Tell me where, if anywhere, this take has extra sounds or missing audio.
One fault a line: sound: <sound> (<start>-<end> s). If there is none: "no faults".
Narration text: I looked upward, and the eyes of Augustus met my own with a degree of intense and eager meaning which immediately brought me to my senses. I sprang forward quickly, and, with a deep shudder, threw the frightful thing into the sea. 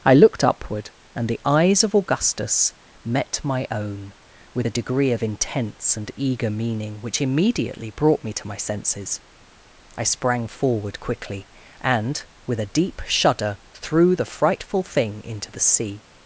no faults